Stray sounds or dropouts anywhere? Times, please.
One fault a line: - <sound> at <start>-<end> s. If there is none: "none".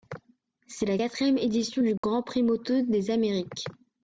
- dropout at 2.0-2.0 s